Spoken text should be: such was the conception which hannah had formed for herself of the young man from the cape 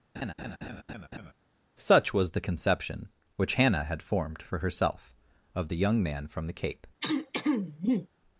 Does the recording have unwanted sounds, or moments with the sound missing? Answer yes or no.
yes